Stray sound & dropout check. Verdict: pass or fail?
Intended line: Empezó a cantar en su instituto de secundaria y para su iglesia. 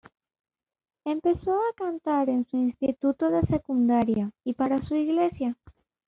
pass